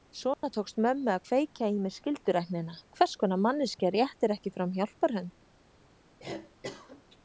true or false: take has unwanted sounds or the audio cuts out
true